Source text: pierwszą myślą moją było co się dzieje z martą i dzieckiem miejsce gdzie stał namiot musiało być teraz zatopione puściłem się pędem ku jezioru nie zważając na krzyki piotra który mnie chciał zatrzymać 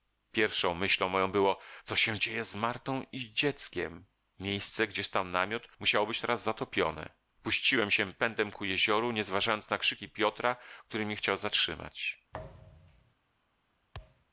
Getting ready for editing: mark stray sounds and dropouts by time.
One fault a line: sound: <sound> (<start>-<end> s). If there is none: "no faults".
sound: thud (12.3-13.1 s)
sound: thud (13.9-14.3 s)